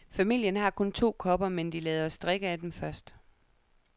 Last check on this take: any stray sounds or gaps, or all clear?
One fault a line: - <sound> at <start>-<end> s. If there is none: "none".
none